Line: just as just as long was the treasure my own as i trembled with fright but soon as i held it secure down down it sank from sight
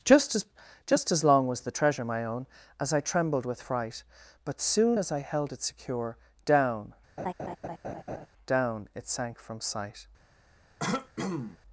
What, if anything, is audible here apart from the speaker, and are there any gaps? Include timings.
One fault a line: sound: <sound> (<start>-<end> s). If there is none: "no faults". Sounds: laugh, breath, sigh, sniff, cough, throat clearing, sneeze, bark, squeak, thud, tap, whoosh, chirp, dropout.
sound: laugh (7.2-8.3 s)
sound: throat clearing (10.8-11.6 s)